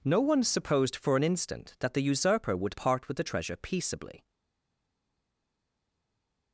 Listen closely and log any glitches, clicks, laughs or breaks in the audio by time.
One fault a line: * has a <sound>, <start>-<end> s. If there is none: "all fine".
all fine